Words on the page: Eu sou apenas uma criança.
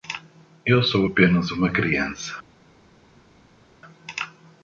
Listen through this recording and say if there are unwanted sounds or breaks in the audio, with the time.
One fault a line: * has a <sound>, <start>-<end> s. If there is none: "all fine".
all fine